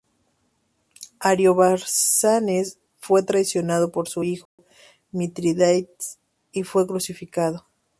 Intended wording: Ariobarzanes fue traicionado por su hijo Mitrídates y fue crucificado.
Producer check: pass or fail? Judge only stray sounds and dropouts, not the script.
fail